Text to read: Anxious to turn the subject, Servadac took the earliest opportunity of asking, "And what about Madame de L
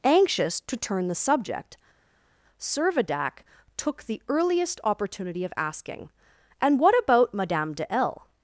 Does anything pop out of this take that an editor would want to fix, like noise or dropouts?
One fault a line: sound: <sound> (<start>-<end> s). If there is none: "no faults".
no faults